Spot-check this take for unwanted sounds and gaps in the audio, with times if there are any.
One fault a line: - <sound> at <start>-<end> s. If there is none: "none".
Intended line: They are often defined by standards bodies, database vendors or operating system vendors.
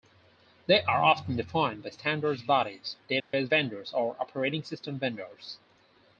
- dropout at 3.2-3.3 s